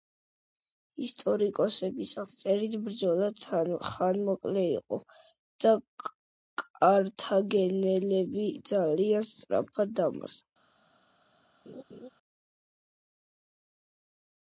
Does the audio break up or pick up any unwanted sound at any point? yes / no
yes